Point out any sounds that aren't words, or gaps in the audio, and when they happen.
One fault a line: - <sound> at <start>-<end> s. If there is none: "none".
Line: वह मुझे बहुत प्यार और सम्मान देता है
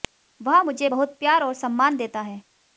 none